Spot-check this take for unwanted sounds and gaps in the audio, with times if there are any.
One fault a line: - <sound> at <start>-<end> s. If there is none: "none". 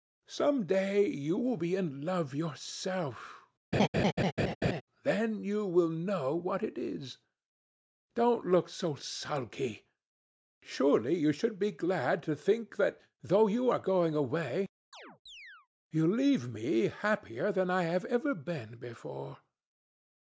- laugh at 3.7-4.8 s
- chirp at 14.9-15.7 s